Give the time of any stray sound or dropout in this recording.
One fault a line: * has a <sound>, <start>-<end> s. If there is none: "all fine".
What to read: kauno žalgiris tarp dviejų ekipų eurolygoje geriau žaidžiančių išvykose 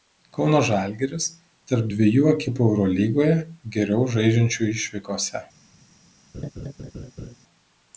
* has a laugh, 6.3-7.4 s